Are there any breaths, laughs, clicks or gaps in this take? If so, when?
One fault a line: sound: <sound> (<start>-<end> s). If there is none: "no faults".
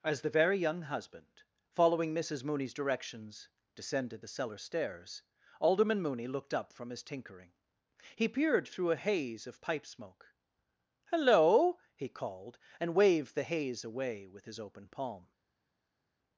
no faults